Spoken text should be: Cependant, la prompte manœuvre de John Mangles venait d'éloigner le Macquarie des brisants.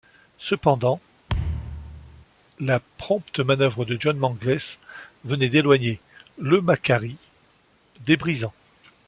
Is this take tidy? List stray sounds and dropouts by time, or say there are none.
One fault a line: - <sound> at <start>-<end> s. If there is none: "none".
- thud at 1.3-2.3 s